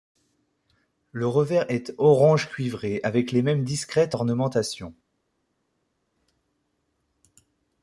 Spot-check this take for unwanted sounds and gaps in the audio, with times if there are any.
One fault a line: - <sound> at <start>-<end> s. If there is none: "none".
none